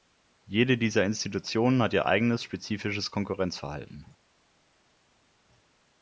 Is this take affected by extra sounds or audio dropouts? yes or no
no